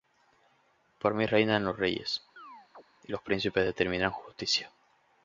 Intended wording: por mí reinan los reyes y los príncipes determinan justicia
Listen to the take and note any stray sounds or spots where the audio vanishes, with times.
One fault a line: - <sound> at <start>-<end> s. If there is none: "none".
- chirp at 2.4-2.8 s